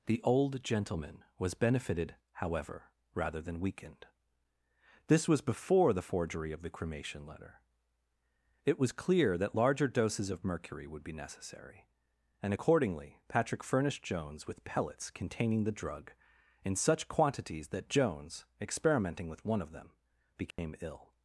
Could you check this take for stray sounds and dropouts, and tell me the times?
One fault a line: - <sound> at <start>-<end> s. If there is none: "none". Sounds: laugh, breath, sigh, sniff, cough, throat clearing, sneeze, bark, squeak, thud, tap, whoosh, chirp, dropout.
- dropout at 20.5-20.6 s